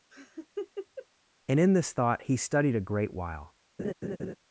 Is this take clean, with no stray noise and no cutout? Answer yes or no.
no